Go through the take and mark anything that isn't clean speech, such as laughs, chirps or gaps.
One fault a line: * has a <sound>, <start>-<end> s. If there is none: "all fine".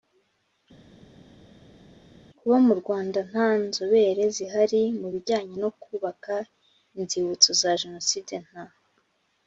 all fine